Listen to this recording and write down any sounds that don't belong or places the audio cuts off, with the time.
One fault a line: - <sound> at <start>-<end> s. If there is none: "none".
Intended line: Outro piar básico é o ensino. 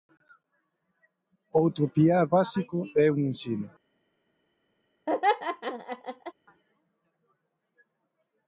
- laugh at 5.1-6.3 s